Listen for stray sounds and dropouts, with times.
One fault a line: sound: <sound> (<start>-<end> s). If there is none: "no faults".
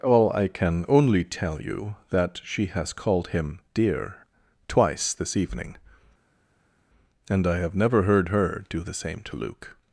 no faults